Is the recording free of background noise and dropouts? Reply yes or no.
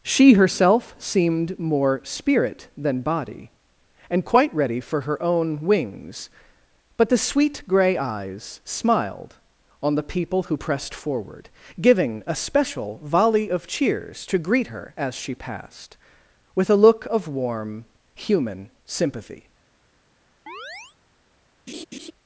no